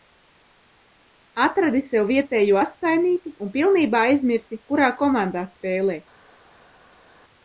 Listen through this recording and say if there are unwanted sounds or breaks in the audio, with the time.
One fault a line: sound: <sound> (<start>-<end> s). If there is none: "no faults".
no faults